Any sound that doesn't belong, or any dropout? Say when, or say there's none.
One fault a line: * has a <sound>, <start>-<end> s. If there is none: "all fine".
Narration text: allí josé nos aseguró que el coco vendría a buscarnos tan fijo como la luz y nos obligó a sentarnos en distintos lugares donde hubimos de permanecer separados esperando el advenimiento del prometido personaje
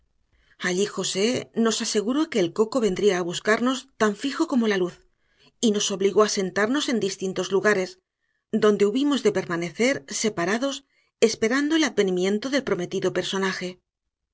all fine